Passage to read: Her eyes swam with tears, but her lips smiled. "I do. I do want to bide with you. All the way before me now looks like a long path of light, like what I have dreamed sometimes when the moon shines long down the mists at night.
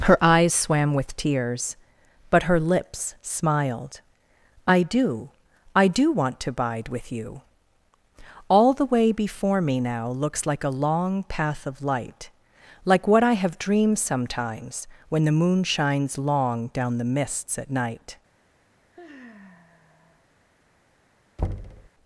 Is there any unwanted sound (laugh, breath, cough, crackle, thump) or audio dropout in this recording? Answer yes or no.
yes